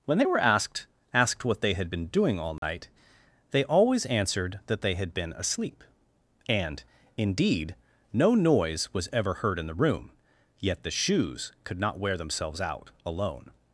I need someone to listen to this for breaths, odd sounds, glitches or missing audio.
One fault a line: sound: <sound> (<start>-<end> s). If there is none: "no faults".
sound: dropout (2.6-2.6 s)